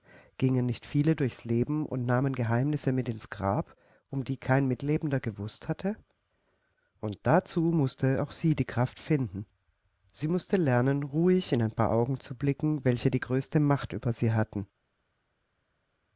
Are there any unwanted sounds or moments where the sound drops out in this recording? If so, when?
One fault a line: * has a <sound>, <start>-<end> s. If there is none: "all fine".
all fine